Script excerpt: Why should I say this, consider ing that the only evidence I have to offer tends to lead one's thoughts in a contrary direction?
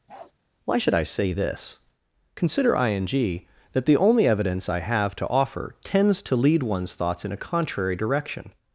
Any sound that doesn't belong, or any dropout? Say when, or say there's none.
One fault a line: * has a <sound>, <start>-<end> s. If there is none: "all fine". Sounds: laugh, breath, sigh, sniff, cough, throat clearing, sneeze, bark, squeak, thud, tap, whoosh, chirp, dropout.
* has a bark, 0.1-0.3 s